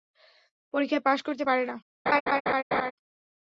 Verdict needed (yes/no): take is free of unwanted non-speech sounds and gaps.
no